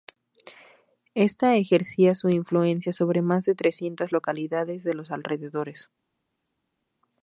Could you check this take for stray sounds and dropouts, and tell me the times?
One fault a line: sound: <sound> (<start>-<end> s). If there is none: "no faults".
no faults